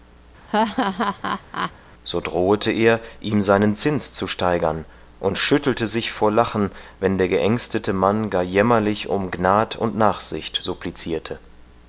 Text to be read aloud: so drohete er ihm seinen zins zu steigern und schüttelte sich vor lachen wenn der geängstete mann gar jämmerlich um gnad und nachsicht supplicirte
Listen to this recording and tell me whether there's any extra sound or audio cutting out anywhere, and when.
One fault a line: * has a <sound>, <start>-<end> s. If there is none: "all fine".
* has a laugh, 0.5-1.7 s